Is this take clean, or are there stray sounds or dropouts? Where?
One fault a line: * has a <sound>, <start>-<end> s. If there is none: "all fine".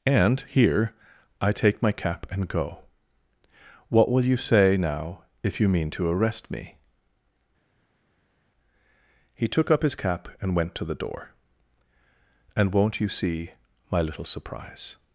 all fine